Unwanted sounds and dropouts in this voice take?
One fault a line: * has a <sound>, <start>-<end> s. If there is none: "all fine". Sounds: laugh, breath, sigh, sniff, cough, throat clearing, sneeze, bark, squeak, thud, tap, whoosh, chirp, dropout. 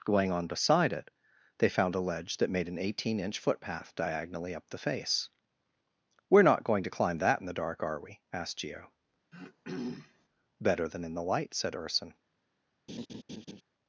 * has a throat clearing, 9.3-10.3 s
* has a laugh, 12.9-13.6 s